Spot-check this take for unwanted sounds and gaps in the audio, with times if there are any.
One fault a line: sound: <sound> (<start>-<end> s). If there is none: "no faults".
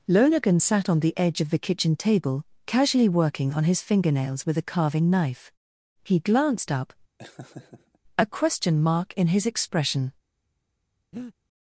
sound: laugh (7.2-8.0 s)
sound: breath (11.1-11.3 s)